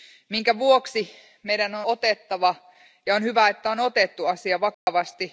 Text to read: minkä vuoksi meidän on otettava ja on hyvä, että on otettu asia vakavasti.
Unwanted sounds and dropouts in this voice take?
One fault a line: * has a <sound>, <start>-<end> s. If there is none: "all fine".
* has a dropout, 4.7-4.9 s